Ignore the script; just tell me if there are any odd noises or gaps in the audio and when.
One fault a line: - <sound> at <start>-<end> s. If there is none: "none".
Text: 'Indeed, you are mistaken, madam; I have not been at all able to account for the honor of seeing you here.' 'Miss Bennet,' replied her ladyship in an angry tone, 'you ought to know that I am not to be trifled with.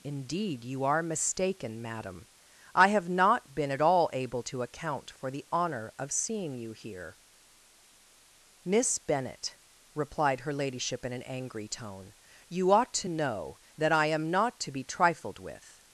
none